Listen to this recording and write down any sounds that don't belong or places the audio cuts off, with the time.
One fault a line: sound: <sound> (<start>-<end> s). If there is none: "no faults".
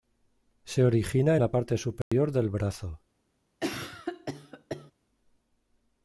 sound: dropout (2.0-2.1 s)
sound: cough (3.6-4.9 s)